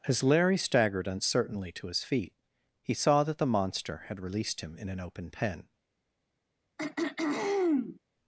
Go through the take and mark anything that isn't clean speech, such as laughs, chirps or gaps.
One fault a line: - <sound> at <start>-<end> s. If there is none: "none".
- throat clearing at 6.8-8.0 s